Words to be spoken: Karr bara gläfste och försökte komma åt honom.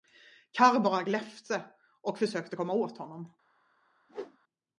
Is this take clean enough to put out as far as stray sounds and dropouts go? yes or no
no